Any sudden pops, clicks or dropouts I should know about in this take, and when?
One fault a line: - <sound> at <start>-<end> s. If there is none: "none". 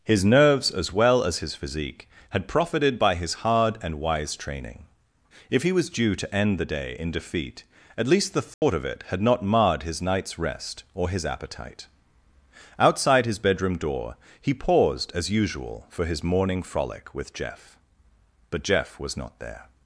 - dropout at 8.5-8.6 s